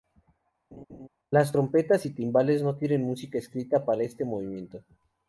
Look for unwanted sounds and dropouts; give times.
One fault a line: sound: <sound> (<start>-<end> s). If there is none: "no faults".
sound: laugh (0.7-1.1 s)